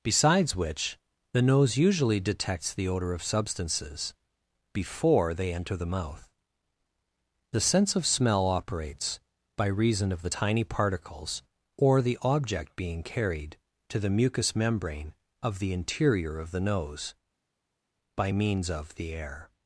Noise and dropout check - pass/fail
pass